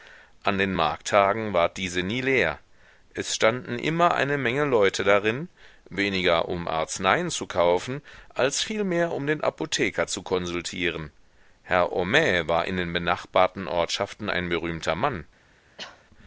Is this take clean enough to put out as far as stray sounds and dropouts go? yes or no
no